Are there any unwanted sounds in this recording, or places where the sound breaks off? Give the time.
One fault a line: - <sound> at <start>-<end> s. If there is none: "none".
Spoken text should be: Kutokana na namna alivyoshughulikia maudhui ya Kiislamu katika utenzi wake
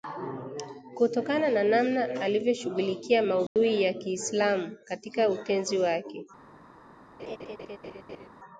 - dropout at 3.5-3.6 s
- laugh at 7.2-8.3 s